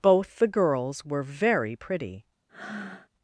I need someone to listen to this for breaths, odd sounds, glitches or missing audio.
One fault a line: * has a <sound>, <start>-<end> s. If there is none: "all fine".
* has a breath, 2.5-3.1 s